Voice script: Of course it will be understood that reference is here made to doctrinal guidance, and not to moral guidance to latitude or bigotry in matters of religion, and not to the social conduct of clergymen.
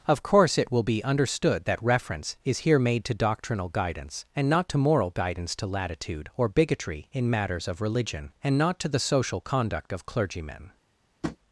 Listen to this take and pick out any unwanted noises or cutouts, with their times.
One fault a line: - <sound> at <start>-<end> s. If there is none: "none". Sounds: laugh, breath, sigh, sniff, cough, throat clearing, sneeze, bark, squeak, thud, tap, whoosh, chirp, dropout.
- tap at 11.2-11.4 s